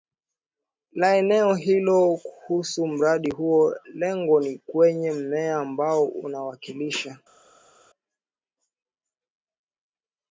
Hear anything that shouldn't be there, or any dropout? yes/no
no